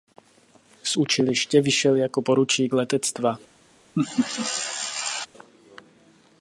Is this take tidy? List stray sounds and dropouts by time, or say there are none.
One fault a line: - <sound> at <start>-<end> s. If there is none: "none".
- laugh at 4.0-5.3 s